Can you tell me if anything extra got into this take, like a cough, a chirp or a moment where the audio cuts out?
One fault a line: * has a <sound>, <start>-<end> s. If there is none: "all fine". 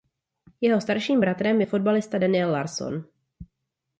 all fine